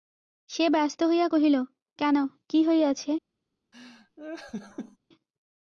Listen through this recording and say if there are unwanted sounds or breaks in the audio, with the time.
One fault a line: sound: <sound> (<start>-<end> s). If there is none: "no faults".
sound: laugh (3.7-5.0 s)